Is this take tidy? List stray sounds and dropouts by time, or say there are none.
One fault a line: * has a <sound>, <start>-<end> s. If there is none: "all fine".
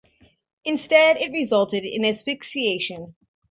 all fine